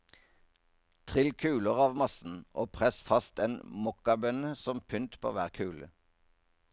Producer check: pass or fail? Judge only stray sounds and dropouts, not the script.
pass